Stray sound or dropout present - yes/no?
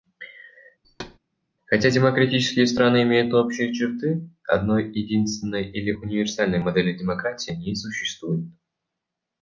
yes